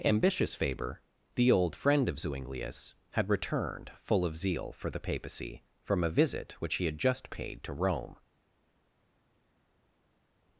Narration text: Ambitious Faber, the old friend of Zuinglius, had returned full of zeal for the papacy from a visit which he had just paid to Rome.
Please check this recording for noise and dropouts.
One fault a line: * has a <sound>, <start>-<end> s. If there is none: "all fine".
all fine